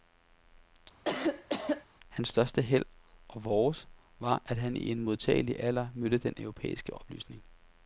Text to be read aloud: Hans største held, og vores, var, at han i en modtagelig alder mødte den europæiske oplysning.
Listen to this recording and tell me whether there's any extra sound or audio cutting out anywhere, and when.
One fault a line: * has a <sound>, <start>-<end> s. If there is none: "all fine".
* has a cough, 1.0-1.9 s